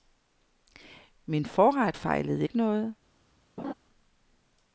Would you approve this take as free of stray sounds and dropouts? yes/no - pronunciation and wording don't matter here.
no